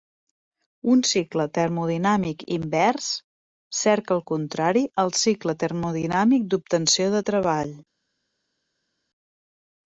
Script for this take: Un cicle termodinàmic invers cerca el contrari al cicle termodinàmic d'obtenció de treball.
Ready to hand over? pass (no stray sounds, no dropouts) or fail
pass